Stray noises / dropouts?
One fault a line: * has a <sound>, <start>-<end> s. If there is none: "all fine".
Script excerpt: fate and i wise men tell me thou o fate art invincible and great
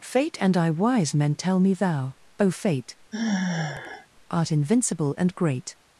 * has a sigh, 3.1-4.1 s